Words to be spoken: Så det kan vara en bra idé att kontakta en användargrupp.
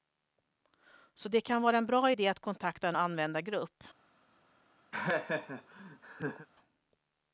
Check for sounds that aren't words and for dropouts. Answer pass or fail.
fail